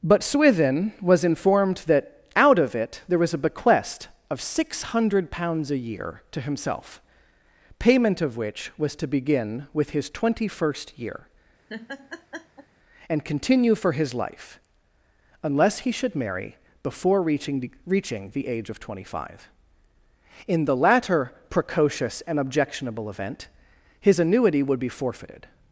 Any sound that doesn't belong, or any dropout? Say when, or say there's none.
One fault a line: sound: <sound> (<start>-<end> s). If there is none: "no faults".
sound: laugh (11.7-12.7 s)